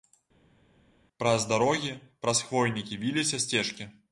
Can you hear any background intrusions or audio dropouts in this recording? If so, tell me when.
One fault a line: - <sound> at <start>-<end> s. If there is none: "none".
none